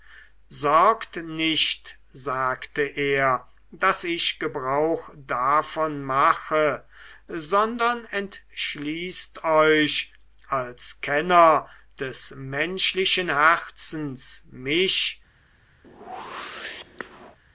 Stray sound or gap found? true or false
true